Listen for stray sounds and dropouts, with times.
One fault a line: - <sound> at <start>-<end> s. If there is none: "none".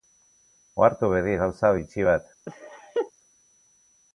- laugh at 2.5-3.1 s